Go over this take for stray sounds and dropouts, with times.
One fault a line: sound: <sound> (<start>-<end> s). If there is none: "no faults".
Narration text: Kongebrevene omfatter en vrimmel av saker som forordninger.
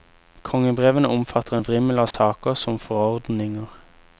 sound: dropout (2.1-2.1 s)